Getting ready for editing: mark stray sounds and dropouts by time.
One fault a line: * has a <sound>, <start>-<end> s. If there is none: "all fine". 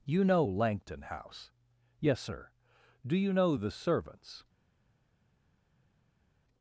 all fine